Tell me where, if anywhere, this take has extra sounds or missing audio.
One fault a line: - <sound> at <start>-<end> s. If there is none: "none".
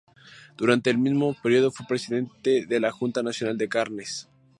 none